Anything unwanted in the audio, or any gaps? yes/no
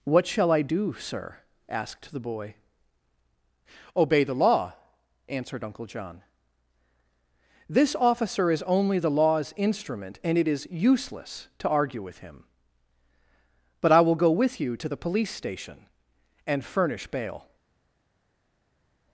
no